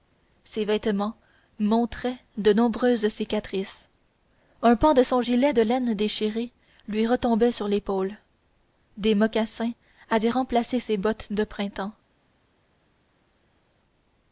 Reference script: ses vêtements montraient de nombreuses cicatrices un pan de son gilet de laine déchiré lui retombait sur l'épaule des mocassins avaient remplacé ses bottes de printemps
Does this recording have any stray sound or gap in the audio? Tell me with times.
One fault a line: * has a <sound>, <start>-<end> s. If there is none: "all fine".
all fine